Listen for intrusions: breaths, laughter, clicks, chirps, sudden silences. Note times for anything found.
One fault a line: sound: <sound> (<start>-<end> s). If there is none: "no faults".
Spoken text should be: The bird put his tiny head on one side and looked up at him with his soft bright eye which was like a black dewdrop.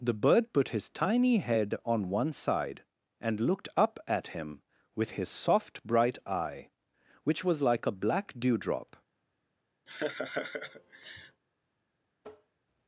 sound: laugh (9.9-11.4 s)
sound: tap (12.2-12.6 s)